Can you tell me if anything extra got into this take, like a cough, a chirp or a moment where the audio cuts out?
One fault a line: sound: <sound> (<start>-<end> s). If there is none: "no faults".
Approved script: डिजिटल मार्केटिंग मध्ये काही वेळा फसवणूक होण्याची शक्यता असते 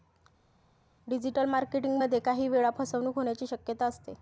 no faults